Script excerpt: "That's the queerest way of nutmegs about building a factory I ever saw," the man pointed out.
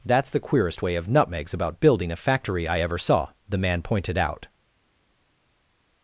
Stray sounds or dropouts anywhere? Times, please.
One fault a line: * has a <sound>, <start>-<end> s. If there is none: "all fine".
all fine